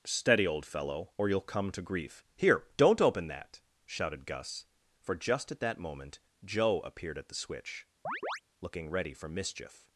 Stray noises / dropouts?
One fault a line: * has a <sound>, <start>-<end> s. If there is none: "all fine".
* has a chirp, 8.0-8.4 s